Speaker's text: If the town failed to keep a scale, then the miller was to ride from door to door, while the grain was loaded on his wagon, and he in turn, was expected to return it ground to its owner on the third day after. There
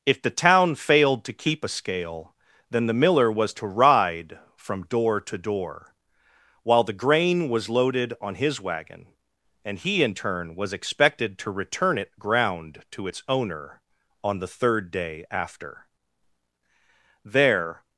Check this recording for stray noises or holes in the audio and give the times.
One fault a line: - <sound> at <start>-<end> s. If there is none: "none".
none